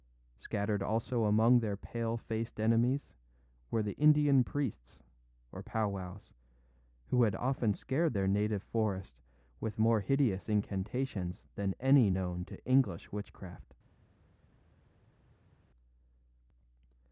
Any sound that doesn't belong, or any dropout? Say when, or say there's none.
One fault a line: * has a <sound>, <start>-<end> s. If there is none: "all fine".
all fine